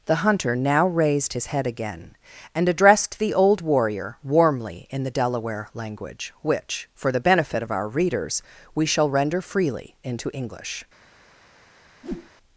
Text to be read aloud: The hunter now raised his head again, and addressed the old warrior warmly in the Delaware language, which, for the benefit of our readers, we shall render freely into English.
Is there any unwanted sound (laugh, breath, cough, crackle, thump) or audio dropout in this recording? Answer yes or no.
yes